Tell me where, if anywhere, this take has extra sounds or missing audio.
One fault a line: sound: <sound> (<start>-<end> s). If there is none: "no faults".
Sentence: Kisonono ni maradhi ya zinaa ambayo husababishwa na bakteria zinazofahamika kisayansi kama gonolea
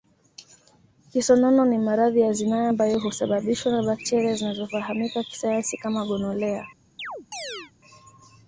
sound: chirp (7.0-7.7 s)